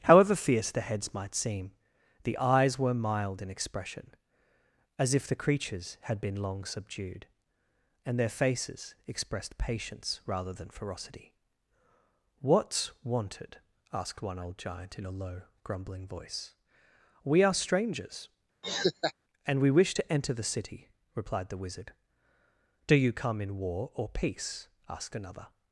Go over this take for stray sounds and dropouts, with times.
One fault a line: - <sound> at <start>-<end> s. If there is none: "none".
- laugh at 18.6-19.1 s